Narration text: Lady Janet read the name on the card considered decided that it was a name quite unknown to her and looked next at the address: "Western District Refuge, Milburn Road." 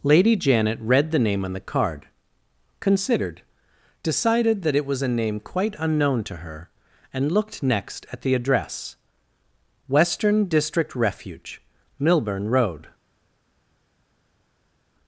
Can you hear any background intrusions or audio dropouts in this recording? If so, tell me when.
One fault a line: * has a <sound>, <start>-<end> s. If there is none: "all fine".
all fine